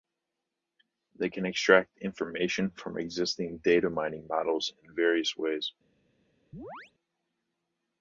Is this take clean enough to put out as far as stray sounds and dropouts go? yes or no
no